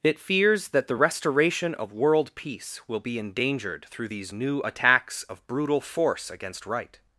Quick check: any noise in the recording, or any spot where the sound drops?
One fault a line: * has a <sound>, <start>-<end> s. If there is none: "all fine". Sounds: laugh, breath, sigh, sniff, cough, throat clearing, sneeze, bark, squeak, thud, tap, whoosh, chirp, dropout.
all fine